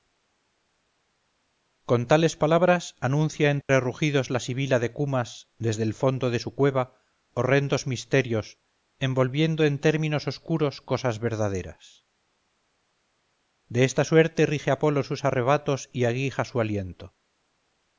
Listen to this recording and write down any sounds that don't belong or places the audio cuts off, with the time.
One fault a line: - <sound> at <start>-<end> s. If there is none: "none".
- dropout at 3.6-3.7 s